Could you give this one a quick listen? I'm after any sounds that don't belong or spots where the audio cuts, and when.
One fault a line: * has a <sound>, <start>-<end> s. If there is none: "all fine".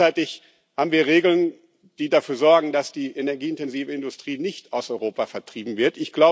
all fine